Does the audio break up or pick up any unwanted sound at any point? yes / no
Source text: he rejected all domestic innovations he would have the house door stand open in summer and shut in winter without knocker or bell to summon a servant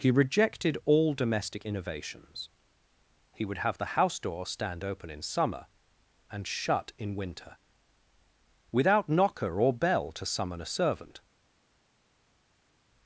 no